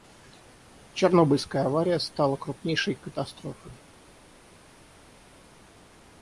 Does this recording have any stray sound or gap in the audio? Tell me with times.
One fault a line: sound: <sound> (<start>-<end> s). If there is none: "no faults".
no faults